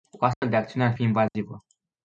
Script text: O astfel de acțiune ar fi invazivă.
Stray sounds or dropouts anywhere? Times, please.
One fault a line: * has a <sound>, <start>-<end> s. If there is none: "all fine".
* has a dropout, 0.3-0.4 s
* has a dropout, 1.3-1.3 s